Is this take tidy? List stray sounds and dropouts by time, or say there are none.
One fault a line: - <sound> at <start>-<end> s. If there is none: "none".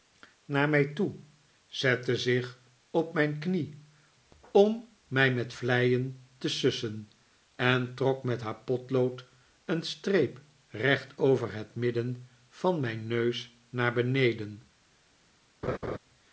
- laugh at 15.6-16.0 s